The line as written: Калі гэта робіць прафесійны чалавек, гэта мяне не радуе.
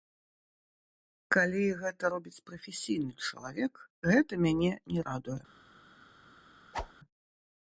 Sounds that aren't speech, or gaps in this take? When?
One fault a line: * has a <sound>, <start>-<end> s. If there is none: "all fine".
* has a whoosh, 6.7-6.9 s